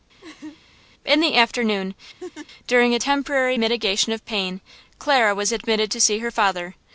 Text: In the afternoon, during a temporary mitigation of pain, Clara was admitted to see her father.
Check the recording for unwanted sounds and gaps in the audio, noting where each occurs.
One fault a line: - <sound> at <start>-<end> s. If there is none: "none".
- laugh at 0.2-0.6 s
- laugh at 2.2-2.5 s